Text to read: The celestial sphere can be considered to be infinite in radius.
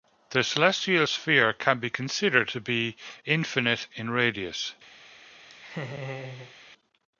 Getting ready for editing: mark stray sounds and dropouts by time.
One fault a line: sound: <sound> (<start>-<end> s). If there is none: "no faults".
sound: laugh (5.5-6.5 s)